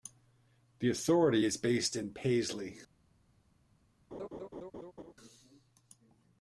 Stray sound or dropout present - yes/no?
yes